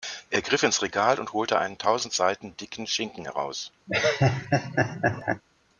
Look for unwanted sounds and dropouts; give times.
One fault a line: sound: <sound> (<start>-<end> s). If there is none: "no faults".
sound: laugh (3.9-5.4 s)